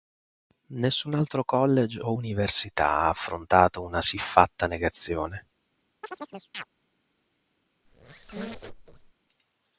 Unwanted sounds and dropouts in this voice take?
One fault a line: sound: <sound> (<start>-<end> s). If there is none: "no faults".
sound: chirp (6.0-6.6 s)
sound: squeak (7.8-9.1 s)